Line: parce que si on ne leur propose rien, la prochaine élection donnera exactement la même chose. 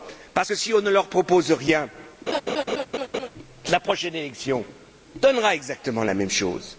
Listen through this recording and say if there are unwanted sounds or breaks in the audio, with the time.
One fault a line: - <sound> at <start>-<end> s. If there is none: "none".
- laugh at 2.3-3.3 s